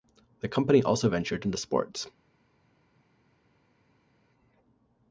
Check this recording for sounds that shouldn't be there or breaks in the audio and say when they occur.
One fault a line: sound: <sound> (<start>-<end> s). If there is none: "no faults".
no faults